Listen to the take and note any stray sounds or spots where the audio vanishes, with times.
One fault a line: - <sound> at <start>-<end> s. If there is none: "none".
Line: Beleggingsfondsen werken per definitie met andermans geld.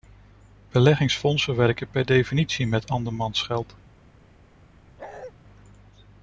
- bark at 5.0-5.3 s